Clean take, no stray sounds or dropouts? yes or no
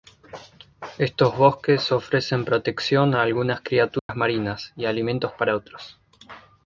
no